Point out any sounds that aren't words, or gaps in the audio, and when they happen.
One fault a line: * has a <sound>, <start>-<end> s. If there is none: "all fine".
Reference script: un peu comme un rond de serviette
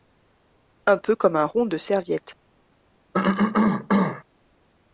* has a cough, 3.1-4.2 s